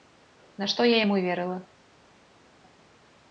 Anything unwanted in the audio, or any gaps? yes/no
no